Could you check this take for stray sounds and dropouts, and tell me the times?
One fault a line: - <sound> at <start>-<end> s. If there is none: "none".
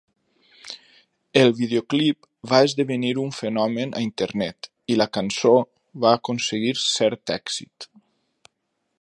none